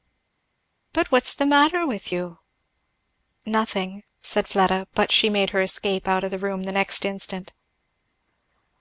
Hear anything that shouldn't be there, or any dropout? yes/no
no